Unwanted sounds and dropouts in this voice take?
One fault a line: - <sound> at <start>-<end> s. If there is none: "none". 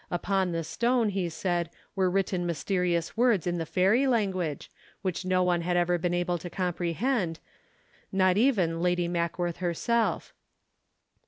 none